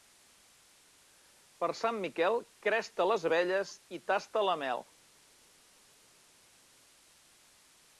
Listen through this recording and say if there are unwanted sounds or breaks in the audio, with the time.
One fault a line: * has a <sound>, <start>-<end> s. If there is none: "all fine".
all fine